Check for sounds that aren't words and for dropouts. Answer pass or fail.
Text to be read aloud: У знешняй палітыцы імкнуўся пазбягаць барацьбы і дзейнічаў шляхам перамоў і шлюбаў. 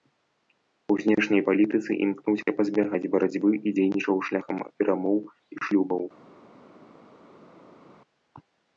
pass